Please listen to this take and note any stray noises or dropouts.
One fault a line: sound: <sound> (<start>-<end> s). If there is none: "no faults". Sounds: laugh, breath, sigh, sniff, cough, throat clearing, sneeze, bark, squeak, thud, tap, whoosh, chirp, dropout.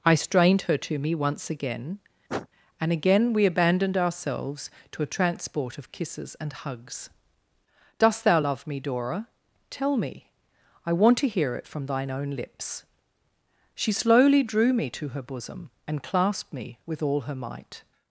sound: sniff (2.3-2.5 s)